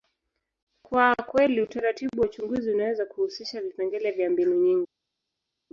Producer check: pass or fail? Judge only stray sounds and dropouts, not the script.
pass